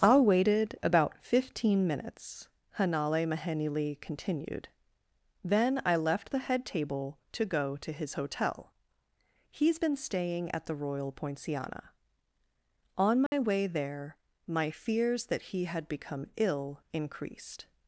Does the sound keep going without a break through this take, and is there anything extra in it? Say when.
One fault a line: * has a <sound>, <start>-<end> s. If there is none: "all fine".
* has a dropout, 13.3-13.3 s